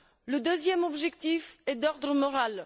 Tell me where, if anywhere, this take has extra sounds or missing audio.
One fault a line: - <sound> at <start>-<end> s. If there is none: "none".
none